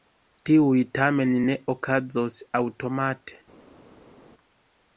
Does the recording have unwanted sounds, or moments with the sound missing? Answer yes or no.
no